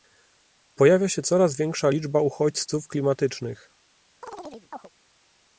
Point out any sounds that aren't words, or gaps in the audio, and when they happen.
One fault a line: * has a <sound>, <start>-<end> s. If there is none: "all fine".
* has a chirp, 4.2-4.9 s